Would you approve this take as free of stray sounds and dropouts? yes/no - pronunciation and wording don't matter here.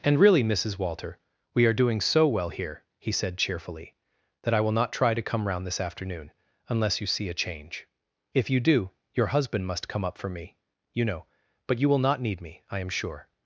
yes